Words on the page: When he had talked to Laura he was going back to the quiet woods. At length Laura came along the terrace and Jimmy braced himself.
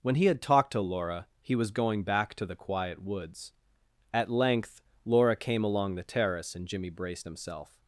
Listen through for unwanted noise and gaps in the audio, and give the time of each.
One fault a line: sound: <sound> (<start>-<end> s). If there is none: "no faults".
no faults